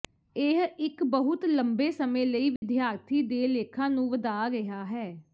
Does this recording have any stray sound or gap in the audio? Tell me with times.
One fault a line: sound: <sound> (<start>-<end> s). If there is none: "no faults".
sound: dropout (2.6-2.6 s)